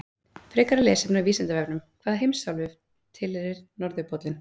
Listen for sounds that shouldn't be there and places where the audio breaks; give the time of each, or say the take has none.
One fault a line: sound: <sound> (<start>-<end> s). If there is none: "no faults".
no faults